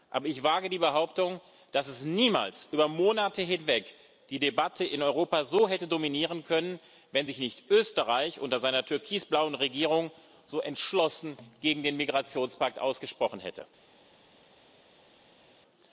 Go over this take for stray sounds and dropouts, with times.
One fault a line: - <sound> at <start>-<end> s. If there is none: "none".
none